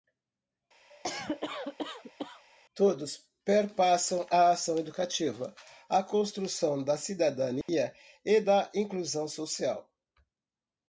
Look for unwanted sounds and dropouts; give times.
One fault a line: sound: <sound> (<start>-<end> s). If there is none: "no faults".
sound: cough (0.9-2.4 s)
sound: dropout (7.6-7.7 s)